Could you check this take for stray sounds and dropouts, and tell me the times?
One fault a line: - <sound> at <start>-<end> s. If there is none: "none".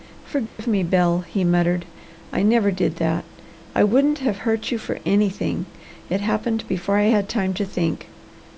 - dropout at 0.5-0.6 s